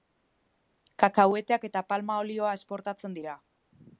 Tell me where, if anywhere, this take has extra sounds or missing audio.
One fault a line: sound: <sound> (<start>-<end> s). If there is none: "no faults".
no faults